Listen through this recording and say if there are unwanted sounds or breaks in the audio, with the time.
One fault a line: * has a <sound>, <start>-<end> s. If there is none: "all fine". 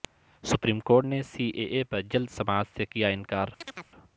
* has a chirp, 3.6-3.9 s